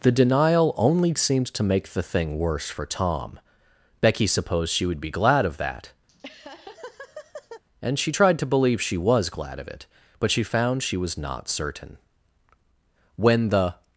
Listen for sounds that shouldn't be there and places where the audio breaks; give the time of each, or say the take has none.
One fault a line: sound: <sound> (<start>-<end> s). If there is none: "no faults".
sound: laugh (6.1-7.6 s)